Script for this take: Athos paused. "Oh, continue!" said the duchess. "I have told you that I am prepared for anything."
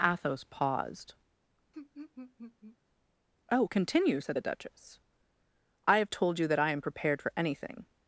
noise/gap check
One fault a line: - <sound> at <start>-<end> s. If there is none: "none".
- laugh at 1.7-2.8 s